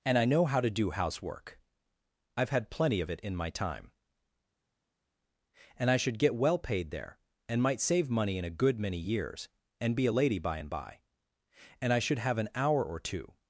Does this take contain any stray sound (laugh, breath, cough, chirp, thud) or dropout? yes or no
no